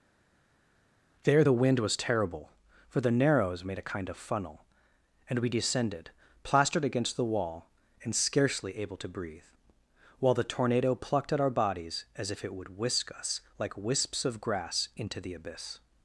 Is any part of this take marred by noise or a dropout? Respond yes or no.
no